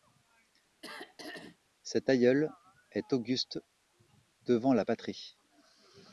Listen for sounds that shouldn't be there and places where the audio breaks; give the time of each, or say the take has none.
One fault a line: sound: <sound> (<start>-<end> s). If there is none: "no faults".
sound: throat clearing (0.8-1.6 s)